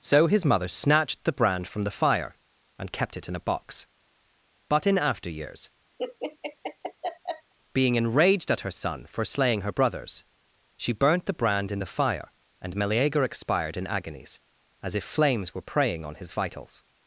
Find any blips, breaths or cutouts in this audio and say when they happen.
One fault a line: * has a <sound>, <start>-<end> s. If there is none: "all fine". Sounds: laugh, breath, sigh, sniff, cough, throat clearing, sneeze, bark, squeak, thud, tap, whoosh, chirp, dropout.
* has a laugh, 6.0-7.5 s